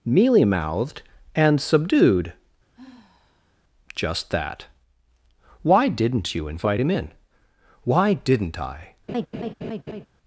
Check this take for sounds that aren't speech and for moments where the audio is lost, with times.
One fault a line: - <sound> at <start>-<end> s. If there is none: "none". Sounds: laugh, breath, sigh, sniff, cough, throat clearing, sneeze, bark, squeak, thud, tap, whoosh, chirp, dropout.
- sigh at 2.7-3.6 s
- laugh at 9.1-10.1 s